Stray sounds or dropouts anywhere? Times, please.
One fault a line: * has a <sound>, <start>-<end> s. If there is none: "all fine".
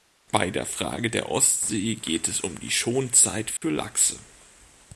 * has a dropout, 3.6-3.6 s